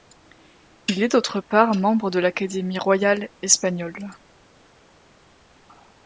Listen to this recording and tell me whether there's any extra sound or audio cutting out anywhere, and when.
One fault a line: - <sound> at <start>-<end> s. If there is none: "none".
none